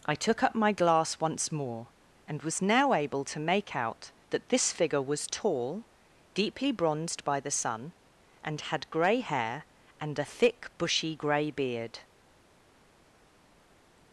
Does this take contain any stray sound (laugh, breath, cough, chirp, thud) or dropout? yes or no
no